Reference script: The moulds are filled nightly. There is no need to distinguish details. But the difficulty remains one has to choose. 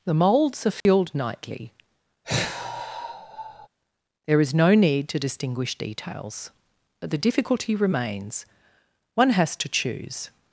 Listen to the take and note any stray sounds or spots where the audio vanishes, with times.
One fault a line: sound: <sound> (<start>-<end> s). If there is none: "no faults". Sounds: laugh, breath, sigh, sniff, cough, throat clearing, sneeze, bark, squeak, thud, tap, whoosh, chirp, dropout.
sound: dropout (0.8-0.9 s)
sound: sigh (2.2-3.7 s)